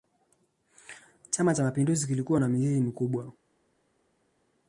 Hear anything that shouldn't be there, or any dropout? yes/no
no